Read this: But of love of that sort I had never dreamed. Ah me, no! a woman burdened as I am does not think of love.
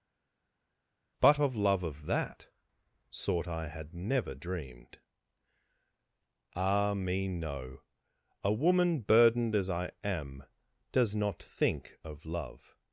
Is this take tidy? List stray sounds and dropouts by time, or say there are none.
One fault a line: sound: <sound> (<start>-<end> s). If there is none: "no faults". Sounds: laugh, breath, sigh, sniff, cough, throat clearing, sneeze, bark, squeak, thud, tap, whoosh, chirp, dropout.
no faults